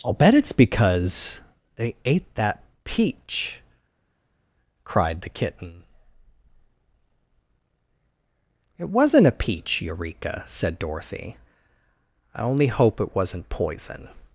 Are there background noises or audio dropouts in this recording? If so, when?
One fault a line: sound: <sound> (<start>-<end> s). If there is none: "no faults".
no faults